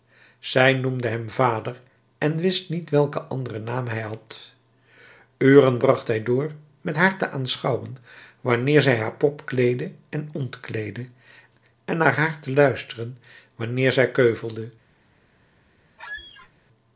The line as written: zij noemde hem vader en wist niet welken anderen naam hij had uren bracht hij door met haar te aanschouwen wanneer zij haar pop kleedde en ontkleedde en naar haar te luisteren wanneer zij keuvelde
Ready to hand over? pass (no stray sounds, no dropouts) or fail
fail